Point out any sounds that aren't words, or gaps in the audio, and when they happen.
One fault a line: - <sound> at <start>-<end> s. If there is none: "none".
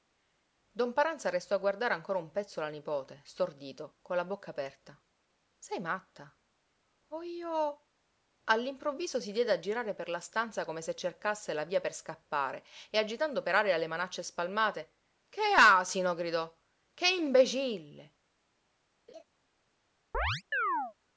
- laugh at 19.1-19.2 s
- chirp at 20.1-20.9 s